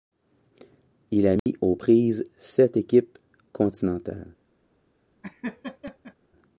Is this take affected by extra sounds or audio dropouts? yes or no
yes